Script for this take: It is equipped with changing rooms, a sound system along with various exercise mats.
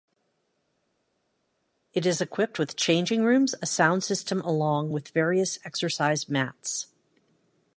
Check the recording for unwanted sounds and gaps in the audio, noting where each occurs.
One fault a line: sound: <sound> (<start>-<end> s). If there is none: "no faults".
no faults